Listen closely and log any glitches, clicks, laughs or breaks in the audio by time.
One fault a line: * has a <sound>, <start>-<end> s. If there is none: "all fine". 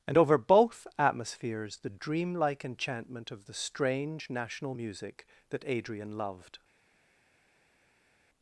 all fine